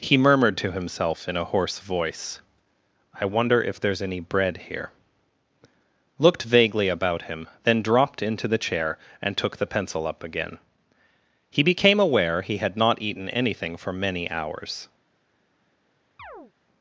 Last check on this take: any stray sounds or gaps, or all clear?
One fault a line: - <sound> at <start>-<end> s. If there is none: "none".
- chirp at 16.2-16.5 s